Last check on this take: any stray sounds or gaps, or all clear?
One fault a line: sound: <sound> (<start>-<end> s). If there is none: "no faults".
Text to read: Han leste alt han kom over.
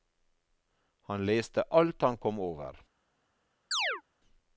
sound: chirp (3.7-4.0 s)